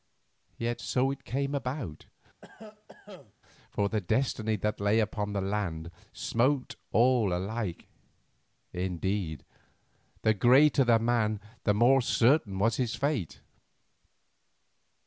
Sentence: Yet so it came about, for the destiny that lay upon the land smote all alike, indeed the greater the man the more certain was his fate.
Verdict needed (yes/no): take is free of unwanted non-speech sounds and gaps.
no